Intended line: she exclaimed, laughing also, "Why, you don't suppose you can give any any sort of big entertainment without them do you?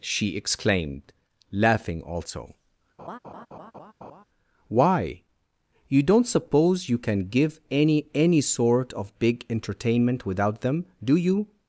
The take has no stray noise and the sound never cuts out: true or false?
false